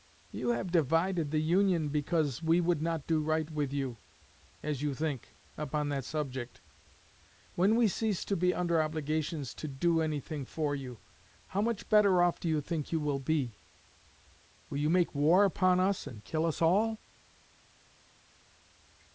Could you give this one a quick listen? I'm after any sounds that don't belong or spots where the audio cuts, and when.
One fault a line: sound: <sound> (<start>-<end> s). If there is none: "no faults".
no faults